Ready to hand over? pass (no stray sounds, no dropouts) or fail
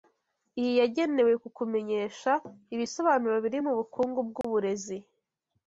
fail